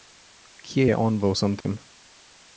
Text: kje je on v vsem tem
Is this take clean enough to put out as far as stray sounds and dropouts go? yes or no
no